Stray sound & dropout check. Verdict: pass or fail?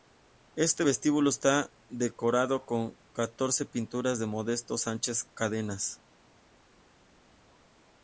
pass